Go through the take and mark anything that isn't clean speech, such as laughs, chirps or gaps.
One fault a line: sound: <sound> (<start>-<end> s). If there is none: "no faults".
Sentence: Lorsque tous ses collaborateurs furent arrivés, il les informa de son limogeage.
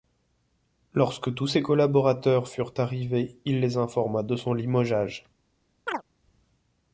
sound: chirp (5.9-6.0 s)